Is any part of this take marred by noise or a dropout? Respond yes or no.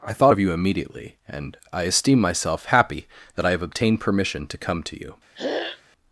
yes